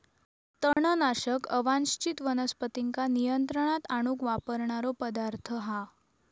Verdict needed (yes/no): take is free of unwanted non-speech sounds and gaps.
no